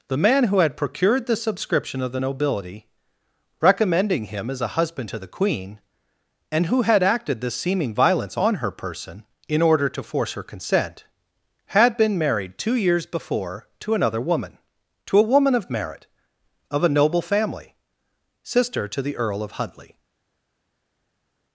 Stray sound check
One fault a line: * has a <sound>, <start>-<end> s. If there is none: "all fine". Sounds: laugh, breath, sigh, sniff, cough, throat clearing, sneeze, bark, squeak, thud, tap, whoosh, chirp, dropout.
all fine